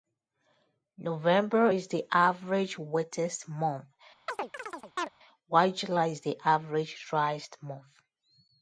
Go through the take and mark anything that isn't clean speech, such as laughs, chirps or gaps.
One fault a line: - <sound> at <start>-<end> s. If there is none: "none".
- chirp at 4.3-5.1 s